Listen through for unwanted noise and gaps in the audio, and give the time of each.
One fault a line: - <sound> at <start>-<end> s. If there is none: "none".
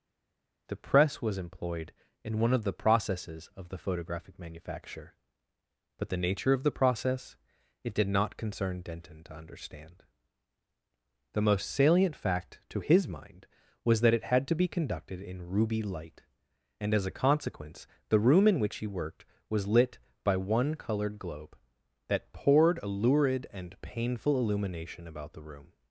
none